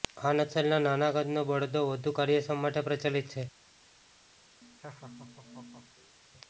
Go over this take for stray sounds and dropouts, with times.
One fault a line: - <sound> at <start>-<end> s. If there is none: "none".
- laugh at 4.6-6.2 s